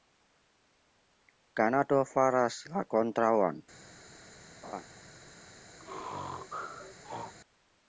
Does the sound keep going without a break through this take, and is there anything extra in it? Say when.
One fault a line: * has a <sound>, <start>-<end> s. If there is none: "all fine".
* has a laugh, 4.6-4.8 s
* has a sneeze, 5.8-7.3 s